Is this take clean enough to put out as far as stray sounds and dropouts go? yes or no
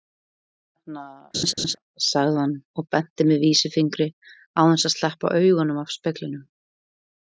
no